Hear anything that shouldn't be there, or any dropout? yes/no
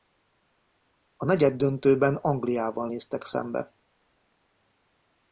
no